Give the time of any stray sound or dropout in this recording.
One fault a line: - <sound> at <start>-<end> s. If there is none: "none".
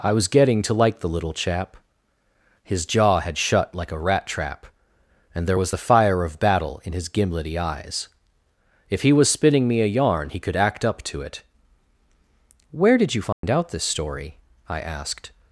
- dropout at 13.3-13.4 s